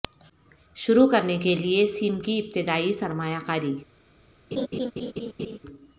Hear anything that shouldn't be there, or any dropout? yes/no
yes